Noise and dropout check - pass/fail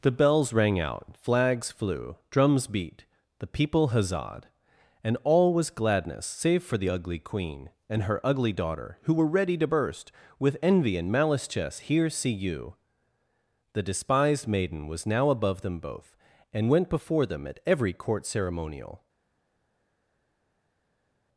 pass